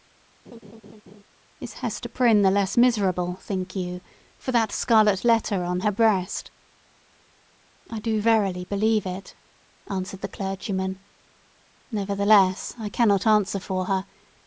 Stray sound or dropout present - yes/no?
yes